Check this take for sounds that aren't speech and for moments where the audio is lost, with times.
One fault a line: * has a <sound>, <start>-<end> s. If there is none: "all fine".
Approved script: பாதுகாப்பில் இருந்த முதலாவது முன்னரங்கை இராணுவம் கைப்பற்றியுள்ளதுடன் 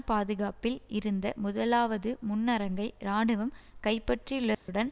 * has a dropout, 4.5-4.7 s